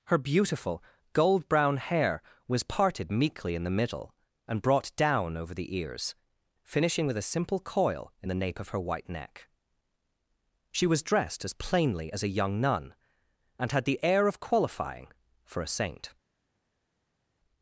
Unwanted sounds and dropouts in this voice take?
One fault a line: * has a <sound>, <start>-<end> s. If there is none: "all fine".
all fine